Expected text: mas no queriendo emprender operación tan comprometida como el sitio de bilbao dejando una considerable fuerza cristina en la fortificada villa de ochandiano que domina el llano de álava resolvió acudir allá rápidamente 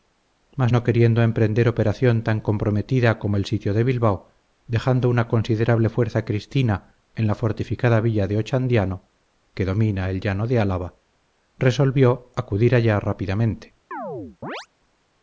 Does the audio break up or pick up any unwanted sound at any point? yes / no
yes